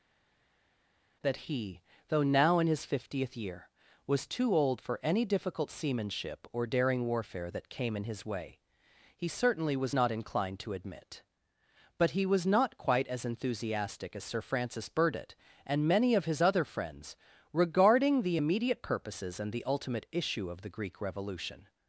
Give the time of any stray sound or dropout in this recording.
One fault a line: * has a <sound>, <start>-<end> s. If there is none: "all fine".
all fine